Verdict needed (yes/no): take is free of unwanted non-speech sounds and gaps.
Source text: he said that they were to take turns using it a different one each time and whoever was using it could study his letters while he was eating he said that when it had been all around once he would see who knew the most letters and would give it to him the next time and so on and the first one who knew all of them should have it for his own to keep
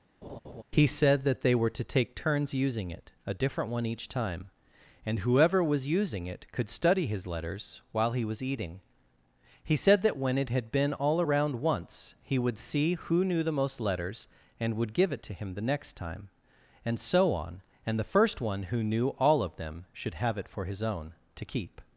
no